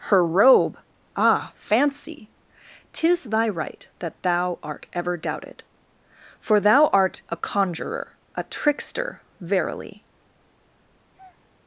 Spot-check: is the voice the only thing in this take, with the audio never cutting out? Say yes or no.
no